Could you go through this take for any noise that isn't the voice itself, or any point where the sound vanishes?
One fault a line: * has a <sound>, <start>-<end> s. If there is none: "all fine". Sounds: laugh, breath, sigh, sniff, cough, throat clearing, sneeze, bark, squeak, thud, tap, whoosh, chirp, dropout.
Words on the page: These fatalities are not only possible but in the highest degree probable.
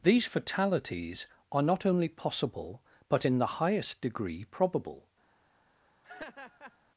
* has a laugh, 6.0-6.8 s